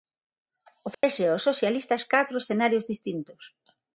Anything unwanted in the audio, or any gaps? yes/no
yes